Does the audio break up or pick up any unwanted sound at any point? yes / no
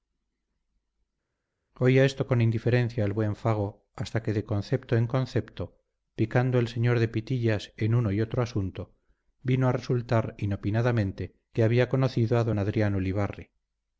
no